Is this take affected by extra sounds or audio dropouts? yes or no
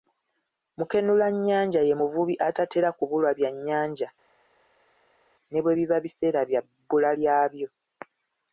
no